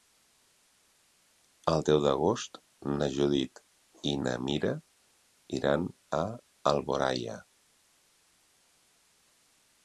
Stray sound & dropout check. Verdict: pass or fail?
pass